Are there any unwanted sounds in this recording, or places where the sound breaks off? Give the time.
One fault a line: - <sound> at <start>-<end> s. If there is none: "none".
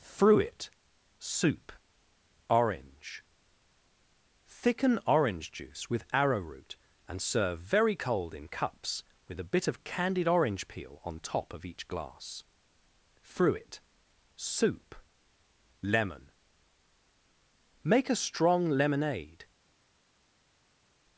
none